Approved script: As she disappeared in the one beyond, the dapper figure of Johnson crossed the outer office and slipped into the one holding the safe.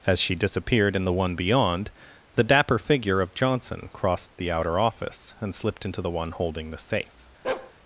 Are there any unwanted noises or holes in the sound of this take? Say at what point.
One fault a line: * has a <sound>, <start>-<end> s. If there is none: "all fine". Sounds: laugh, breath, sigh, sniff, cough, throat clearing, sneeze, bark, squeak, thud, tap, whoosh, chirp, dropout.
* has a bark, 7.4-7.7 s